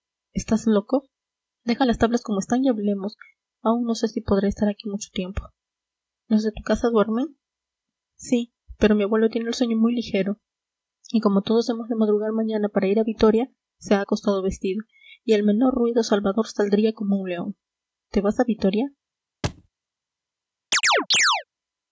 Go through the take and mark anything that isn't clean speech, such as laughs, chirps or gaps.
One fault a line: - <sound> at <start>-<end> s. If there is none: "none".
- thud at 19.4-19.7 s
- chirp at 20.7-21.4 s